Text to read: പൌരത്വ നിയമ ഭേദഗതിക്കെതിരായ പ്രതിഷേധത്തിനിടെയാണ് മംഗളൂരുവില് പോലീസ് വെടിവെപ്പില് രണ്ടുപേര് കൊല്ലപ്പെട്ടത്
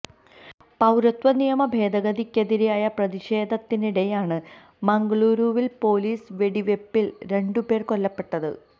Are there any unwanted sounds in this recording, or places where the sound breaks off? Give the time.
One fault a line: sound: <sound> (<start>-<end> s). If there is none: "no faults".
no faults